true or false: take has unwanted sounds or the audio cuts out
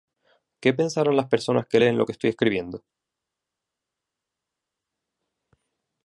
false